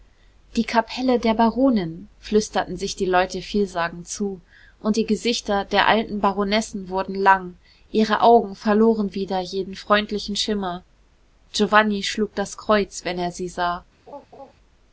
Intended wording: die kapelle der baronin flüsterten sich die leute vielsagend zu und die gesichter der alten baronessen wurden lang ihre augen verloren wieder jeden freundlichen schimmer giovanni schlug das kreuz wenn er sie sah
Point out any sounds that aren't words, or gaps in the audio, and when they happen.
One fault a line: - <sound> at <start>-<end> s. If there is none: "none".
- laugh at 14.1-14.5 s